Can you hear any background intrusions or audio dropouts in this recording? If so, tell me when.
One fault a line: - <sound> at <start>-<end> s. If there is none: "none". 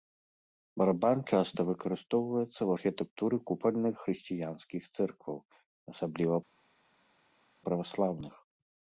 none